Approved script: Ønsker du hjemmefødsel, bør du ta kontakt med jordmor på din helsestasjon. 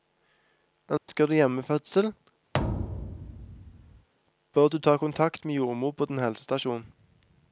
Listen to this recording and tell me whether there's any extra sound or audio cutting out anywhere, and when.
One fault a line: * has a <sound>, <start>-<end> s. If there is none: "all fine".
* has a dropout, 1.0-1.1 s
* has a thud, 2.5-4.1 s